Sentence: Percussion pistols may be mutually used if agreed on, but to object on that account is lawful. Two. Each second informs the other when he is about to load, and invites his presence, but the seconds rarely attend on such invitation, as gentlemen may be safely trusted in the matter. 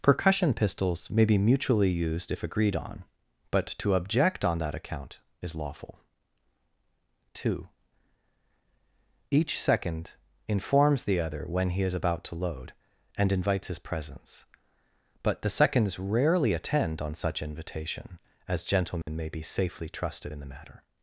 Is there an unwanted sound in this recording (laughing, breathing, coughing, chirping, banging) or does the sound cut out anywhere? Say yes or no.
yes